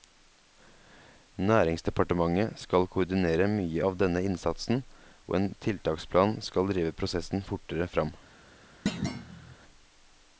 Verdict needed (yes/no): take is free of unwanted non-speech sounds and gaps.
no